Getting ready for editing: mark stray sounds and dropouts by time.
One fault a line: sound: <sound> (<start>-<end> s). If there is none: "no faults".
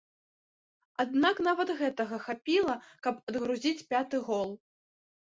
no faults